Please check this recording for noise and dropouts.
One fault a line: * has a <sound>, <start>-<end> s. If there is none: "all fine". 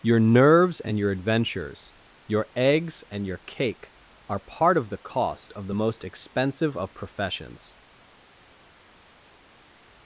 all fine